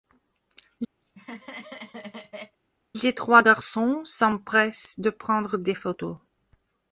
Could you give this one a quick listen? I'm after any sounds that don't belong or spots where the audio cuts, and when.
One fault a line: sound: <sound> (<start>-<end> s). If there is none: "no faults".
sound: laugh (1.0-2.6 s)